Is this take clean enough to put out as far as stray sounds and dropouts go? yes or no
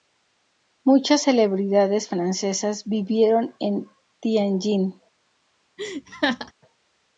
no